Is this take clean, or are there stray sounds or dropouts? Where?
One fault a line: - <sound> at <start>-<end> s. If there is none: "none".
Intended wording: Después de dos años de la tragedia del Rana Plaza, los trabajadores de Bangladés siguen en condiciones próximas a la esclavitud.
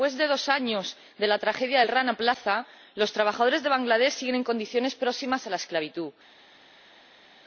none